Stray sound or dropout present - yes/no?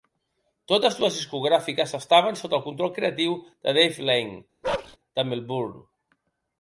yes